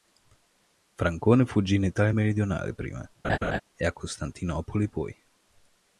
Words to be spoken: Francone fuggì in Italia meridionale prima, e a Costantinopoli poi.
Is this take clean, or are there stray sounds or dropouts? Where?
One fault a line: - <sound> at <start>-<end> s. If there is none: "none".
- laugh at 3.2-3.6 s